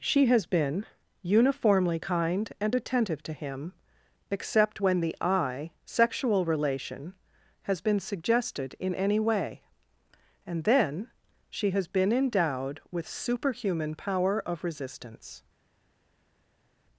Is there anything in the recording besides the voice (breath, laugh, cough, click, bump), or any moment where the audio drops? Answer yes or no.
no